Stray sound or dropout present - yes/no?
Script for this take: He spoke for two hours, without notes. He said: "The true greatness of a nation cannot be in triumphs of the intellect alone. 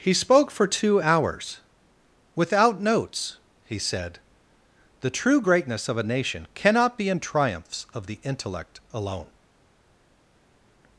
no